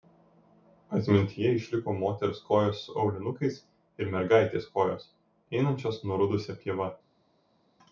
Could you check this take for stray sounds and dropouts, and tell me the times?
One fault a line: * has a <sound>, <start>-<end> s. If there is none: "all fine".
all fine